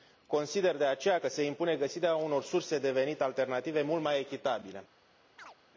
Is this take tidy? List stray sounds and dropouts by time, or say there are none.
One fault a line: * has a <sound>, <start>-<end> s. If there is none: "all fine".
* has a chirp, 5.4-5.6 s